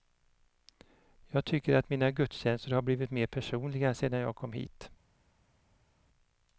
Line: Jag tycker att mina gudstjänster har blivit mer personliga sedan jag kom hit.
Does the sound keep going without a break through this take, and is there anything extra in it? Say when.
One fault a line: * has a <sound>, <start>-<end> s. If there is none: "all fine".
all fine